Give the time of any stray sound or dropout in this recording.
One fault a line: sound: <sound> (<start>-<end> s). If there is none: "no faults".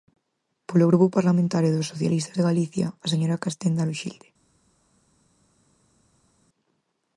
no faults